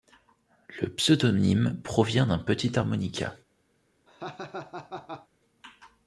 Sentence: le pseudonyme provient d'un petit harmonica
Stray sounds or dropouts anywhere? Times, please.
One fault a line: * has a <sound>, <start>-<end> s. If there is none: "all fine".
* has a laugh, 4.1-5.3 s